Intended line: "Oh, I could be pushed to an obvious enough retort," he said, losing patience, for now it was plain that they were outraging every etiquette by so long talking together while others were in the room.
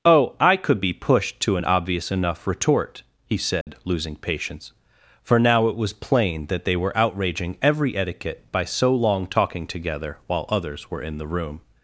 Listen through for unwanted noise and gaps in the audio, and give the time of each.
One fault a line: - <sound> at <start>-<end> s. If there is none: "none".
- dropout at 3.6-3.7 s